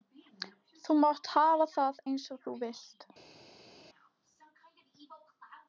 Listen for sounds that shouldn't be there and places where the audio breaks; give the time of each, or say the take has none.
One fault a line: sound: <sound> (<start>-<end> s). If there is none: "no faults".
no faults